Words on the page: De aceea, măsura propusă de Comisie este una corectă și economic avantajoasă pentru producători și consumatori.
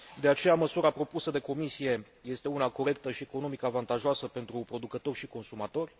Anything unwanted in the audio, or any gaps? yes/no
no